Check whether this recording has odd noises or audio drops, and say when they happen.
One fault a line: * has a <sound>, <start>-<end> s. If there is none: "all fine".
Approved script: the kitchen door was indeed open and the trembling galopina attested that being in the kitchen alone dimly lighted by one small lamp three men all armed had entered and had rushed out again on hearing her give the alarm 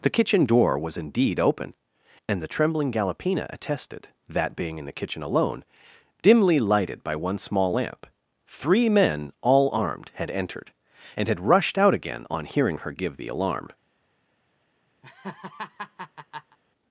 * has a laugh, 15.0-16.6 s